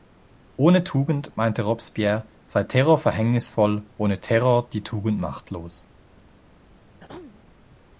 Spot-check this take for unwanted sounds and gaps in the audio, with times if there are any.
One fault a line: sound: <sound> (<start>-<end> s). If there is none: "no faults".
sound: throat clearing (7.0-7.4 s)